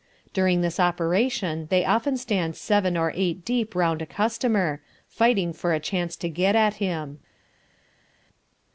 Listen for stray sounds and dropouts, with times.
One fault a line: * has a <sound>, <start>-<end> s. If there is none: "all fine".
all fine